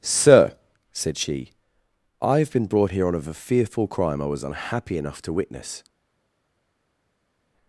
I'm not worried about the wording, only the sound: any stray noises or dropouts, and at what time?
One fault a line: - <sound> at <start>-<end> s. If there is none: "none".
none